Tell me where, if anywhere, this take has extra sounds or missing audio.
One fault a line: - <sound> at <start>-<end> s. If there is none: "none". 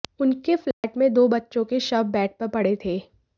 - dropout at 0.7-0.8 s